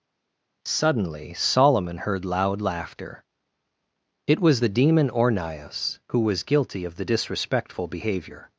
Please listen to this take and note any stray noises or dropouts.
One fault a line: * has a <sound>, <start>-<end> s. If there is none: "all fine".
all fine